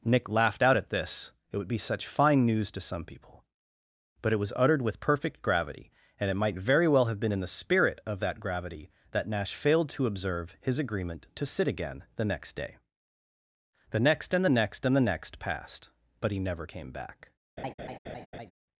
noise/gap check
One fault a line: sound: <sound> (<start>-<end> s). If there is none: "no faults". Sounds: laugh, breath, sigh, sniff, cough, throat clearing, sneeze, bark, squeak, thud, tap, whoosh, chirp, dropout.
sound: laugh (17.6-18.5 s)